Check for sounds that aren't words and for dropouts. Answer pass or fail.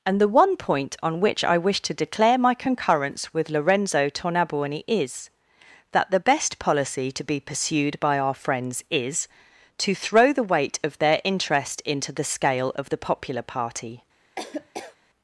fail